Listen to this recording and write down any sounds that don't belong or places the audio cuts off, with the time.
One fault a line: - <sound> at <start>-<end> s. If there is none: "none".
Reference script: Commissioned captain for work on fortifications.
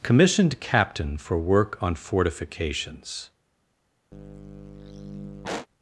- sigh at 4.1-5.7 s